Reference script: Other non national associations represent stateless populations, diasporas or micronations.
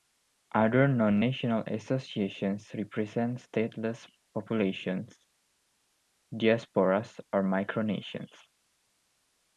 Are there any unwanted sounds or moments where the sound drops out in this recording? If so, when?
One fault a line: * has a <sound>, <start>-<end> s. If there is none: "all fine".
all fine